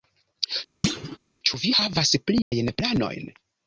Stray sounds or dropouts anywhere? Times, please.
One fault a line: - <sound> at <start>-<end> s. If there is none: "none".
- thud at 0.8-1.2 s
- dropout at 2.4-2.5 s